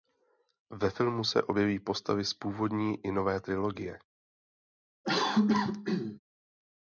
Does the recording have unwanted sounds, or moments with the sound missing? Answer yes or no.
yes